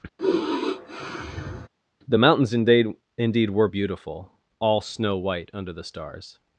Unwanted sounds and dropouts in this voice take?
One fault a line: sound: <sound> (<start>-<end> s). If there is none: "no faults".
sound: sigh (0.2-1.7 s)